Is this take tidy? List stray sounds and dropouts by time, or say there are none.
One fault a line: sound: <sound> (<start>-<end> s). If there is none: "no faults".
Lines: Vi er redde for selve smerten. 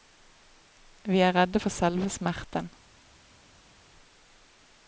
no faults